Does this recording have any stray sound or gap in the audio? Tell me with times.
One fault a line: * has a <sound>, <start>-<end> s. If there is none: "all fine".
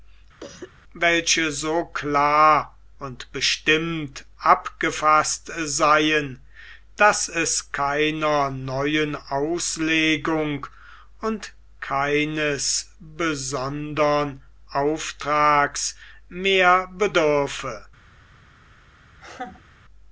* has a cough, 0.4-0.7 s
* has a laugh, 19.1-19.8 s